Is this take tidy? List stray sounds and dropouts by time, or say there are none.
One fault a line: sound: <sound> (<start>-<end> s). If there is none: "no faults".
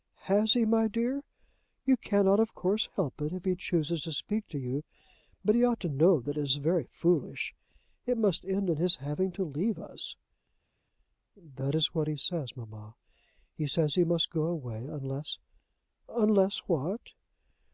no faults